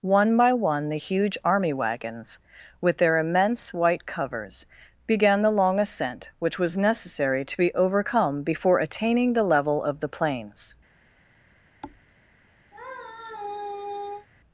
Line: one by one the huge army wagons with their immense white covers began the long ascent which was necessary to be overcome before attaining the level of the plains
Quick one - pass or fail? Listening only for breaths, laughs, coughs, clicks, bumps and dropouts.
fail